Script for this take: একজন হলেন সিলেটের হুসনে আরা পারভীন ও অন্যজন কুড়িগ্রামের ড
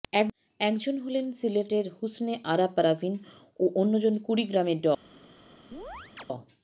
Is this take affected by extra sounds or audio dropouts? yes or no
yes